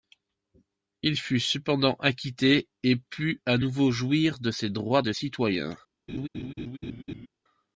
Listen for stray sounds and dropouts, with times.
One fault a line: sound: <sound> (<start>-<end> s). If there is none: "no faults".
sound: laugh (6.1-7.3 s)